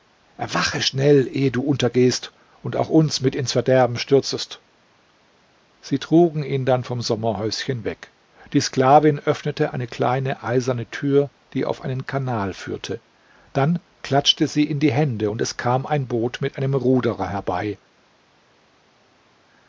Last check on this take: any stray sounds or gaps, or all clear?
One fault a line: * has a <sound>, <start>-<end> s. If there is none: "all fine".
all fine